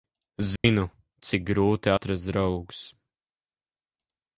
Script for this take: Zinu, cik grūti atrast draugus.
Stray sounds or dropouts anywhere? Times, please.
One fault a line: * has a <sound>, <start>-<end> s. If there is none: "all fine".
* has a dropout, 0.6-0.6 s